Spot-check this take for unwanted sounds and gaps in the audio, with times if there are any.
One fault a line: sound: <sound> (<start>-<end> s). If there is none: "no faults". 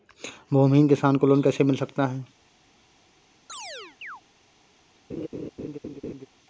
sound: chirp (3.5-4.2 s)
sound: laugh (5.1-6.3 s)